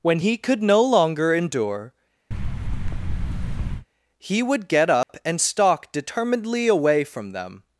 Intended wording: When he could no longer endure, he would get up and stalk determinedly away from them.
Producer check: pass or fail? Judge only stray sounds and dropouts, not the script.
fail